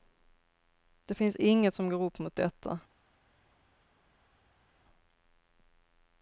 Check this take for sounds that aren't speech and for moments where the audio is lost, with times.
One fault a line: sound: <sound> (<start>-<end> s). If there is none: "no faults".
no faults